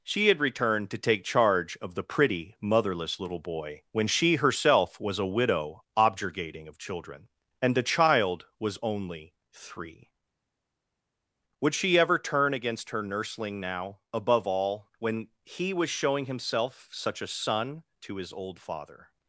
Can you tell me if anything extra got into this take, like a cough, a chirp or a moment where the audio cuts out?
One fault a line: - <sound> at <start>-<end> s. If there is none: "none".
none